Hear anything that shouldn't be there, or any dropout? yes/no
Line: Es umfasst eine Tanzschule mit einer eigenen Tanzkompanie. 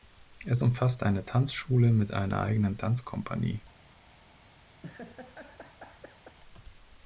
yes